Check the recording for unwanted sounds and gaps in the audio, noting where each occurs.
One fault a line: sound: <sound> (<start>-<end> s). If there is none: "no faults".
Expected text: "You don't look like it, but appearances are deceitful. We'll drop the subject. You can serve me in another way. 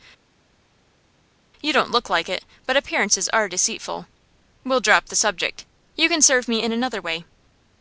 no faults